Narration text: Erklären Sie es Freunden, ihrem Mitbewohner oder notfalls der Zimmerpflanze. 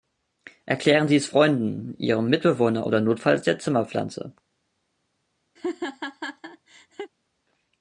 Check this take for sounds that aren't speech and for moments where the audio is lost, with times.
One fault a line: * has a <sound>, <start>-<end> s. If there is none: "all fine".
* has a laugh, 5.6-7.1 s